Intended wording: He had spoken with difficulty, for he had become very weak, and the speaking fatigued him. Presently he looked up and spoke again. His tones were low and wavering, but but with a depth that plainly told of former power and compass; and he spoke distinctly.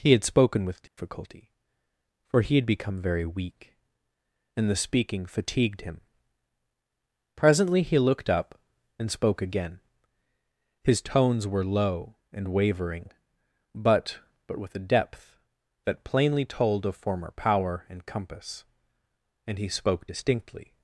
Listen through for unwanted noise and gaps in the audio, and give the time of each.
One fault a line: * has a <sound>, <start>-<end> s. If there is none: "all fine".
* has a dropout, 0.9-1.0 s